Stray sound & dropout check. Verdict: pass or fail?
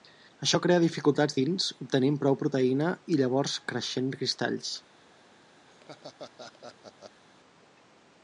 fail